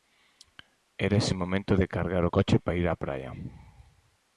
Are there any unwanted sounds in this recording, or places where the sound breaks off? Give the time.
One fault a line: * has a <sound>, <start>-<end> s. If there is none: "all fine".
all fine